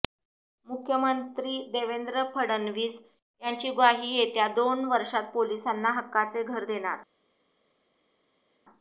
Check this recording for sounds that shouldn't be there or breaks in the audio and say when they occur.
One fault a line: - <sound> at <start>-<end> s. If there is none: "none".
none